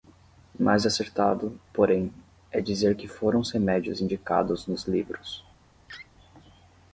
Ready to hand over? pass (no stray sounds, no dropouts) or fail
fail